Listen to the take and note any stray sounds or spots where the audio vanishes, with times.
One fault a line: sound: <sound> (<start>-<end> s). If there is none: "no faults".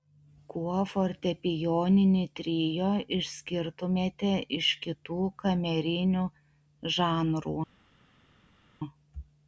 no faults